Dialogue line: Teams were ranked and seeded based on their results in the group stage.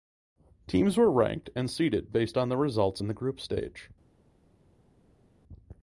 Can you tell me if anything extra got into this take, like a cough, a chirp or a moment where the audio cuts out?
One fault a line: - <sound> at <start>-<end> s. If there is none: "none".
none